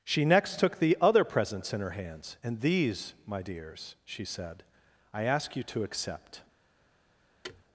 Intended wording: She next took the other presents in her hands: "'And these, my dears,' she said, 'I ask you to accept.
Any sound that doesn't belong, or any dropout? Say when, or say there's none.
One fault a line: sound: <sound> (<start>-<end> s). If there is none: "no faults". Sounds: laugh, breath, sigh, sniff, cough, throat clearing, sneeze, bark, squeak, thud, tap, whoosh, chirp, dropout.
sound: thud (7.4-7.6 s)